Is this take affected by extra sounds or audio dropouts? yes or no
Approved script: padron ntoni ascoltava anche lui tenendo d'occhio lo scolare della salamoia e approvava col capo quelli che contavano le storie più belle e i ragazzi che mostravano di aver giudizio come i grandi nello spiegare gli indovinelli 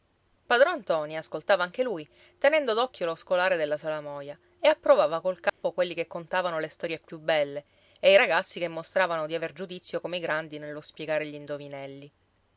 yes